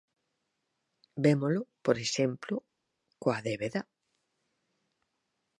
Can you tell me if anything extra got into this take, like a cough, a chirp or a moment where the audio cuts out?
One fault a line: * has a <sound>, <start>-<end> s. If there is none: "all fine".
all fine